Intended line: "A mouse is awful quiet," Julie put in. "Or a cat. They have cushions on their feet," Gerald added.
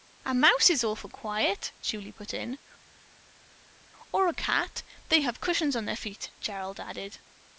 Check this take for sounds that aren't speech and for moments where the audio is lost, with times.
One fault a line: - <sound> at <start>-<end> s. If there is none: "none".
none